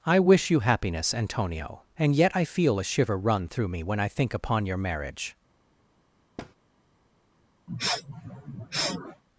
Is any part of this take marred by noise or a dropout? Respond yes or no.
yes